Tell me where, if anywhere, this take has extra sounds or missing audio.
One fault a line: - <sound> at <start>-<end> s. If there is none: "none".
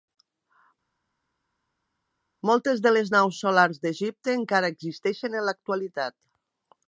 none